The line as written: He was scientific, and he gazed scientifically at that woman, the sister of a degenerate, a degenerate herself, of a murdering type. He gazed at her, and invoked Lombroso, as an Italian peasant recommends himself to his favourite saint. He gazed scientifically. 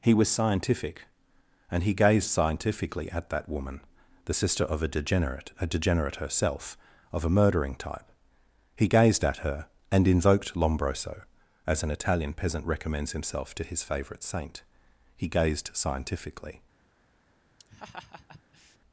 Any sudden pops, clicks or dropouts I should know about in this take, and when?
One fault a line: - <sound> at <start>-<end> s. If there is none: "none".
- laugh at 17.6-18.8 s